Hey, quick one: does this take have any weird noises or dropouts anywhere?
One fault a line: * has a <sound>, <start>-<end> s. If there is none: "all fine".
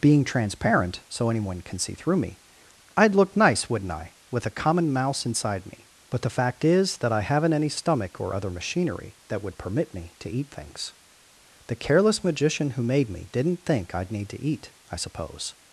all fine